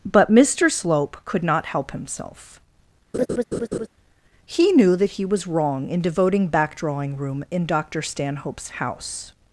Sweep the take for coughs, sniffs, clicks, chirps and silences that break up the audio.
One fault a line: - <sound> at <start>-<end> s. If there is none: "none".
- laugh at 3.1-3.9 s